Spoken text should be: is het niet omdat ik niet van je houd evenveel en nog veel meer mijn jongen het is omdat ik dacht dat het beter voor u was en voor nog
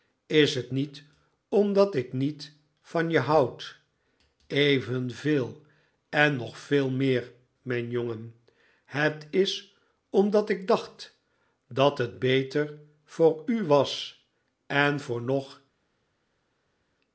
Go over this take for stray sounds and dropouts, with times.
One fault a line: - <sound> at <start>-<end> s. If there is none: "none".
none